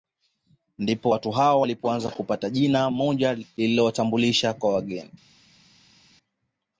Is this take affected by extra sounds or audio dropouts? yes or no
no